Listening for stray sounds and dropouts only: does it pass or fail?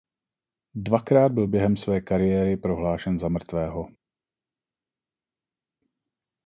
pass